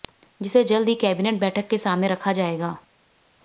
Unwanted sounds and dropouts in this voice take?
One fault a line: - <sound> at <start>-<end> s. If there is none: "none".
none